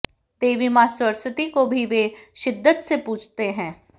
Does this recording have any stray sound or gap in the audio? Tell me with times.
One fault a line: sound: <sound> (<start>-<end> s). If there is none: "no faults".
no faults